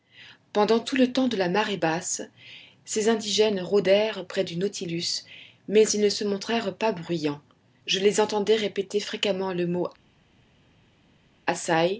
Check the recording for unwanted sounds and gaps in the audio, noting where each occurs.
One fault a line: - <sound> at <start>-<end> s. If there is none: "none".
none